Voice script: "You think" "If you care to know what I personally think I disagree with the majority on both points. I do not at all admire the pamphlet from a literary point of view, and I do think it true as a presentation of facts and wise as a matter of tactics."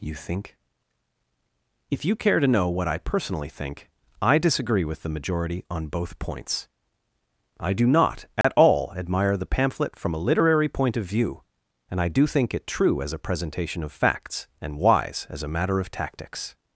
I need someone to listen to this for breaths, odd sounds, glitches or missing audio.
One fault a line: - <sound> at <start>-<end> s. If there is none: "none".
- dropout at 8.4-8.4 s